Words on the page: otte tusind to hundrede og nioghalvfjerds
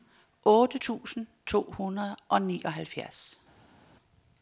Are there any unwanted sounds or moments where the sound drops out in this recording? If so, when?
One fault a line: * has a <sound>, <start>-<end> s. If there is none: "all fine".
all fine